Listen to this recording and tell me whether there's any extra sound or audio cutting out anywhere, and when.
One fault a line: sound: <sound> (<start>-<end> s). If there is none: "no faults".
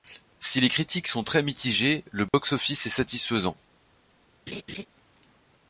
sound: dropout (2.3-2.3 s)
sound: laugh (4.5-4.9 s)